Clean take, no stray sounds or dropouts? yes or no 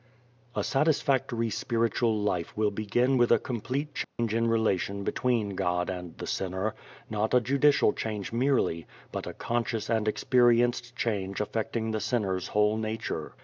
no